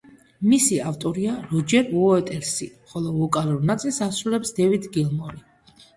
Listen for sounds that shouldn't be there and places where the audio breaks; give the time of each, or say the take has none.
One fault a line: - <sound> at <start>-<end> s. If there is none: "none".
none